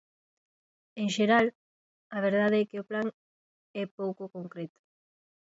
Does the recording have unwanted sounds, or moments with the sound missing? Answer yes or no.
no